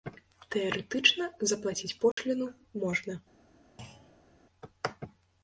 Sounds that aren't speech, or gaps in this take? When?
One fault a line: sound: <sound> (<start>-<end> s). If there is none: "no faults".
sound: dropout (2.1-2.2 s)
sound: thud (3.8-4.4 s)